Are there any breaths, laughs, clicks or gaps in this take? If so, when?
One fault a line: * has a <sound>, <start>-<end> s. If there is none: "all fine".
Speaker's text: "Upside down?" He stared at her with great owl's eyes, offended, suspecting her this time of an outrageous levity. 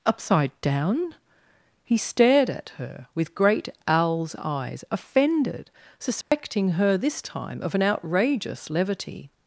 * has a dropout, 6.2-6.3 s